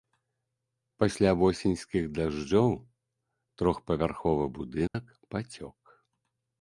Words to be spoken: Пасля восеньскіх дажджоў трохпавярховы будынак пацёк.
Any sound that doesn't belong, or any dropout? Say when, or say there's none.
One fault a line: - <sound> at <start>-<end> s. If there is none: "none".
- dropout at 4.9-4.9 s